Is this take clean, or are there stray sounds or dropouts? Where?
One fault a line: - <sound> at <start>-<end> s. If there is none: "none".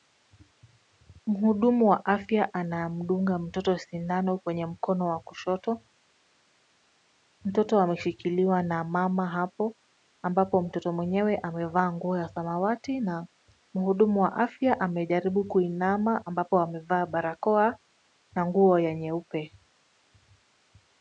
none